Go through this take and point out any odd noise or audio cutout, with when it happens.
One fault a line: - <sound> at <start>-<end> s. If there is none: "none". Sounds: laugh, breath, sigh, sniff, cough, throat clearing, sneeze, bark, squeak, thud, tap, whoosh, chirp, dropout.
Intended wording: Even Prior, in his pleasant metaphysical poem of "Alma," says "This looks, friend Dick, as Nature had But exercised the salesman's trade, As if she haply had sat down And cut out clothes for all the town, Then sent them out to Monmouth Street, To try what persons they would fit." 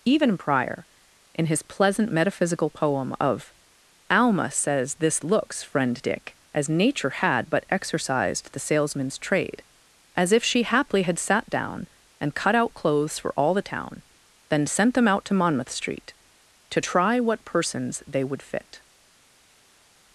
none